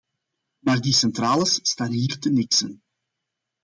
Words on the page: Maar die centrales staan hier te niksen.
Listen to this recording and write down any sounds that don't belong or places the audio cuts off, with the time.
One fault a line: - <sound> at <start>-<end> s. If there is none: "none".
none